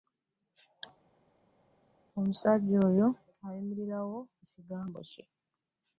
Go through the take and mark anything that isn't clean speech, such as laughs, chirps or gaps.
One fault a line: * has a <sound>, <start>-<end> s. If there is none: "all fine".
all fine